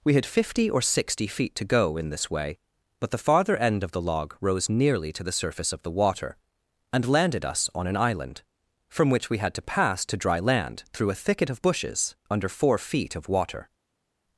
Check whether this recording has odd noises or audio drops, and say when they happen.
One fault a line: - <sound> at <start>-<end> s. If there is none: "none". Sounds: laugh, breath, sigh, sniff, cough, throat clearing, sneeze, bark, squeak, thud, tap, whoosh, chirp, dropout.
none